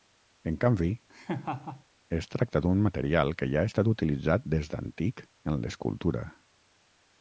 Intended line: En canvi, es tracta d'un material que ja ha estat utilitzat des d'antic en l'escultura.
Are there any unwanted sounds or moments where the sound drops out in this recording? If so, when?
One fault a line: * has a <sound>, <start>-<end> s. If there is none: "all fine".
* has a laugh, 1.1-1.8 s